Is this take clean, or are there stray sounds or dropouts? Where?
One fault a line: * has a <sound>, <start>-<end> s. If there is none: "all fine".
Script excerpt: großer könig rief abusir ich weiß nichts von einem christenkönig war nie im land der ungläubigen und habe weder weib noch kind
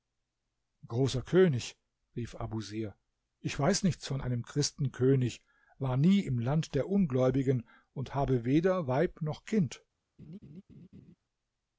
* has a laugh, 10.2-11.2 s